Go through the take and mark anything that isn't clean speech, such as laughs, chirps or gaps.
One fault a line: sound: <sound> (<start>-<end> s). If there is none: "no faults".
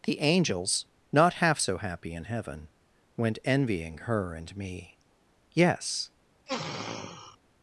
sound: sniff (6.5-7.4 s)